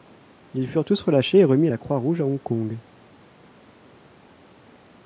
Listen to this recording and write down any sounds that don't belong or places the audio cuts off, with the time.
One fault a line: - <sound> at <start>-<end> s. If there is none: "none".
none